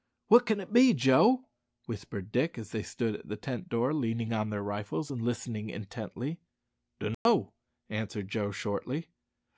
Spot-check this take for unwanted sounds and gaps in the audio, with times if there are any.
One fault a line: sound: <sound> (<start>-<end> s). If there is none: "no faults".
sound: dropout (7.1-7.3 s)